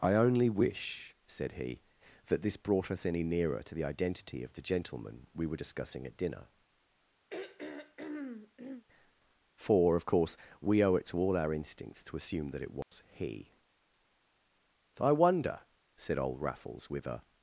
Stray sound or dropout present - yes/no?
yes